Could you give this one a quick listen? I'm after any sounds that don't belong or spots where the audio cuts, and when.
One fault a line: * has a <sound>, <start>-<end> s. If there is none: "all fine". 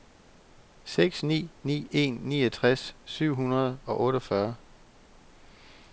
all fine